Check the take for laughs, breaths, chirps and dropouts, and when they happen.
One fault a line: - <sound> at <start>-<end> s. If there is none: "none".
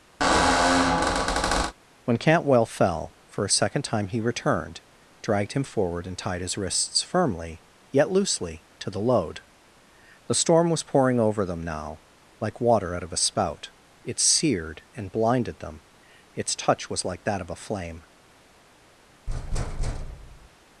- squeak at 0.2-1.7 s
- thud at 19.3-20.5 s